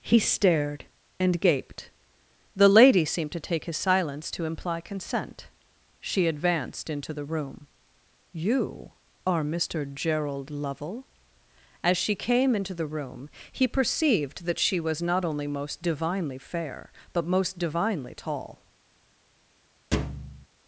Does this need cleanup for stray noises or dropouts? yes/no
yes